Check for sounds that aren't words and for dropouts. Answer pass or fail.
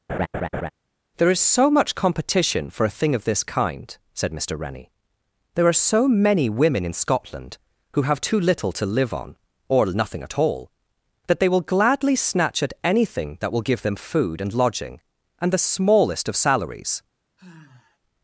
fail